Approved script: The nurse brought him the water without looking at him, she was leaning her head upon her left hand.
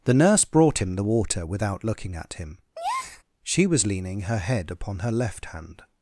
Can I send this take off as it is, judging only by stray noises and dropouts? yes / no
no